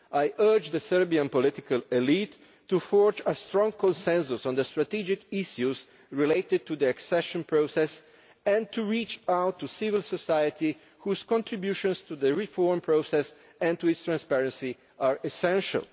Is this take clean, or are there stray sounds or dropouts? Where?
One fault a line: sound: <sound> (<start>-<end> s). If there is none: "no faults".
no faults